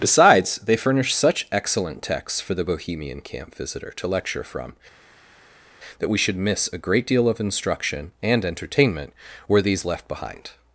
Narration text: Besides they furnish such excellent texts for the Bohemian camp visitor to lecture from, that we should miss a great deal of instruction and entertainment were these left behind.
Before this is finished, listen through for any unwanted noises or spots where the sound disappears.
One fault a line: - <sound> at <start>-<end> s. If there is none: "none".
none